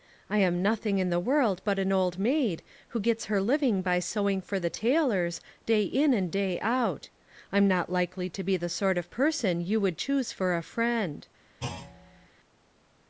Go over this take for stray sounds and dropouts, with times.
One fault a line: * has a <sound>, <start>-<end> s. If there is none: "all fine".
* has a thud, 11.6-12.3 s